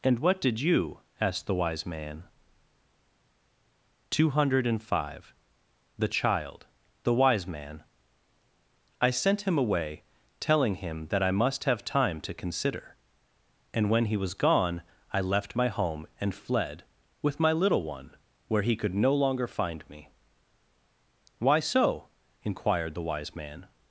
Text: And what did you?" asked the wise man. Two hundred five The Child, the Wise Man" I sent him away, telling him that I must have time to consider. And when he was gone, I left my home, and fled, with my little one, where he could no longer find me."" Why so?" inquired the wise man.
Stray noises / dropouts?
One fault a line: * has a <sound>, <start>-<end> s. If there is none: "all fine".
all fine